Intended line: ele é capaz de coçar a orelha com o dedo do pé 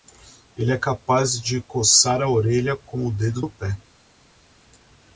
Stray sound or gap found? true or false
false